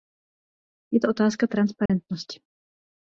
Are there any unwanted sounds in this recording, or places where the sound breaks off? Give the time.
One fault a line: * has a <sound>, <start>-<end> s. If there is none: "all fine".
* has a dropout, 1.9-1.9 s